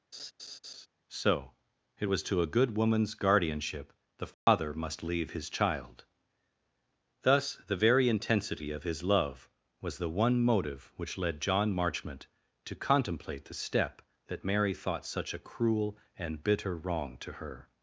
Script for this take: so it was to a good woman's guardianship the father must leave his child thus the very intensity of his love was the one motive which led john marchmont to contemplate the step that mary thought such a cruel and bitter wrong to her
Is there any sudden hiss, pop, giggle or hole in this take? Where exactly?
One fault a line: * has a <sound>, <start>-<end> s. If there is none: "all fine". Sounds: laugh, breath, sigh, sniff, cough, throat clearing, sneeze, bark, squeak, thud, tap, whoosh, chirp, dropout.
* has a laugh, 0.1-0.9 s
* has a dropout, 4.3-4.5 s